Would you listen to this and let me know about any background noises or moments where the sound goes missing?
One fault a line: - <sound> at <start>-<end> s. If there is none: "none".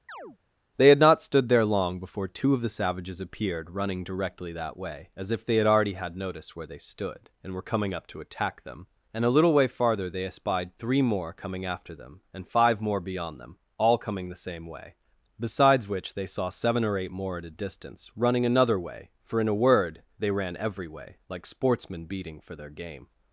- chirp at 0.1-0.4 s